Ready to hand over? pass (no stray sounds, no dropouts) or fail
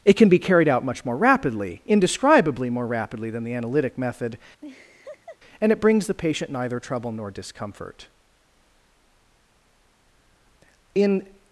fail